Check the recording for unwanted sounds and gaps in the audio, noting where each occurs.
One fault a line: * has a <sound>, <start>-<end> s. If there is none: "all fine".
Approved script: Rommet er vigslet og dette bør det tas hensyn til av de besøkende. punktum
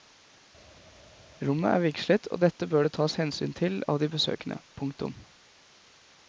all fine